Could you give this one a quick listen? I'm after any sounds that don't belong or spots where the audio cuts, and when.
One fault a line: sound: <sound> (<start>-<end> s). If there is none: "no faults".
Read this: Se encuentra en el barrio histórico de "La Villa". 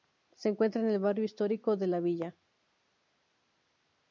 no faults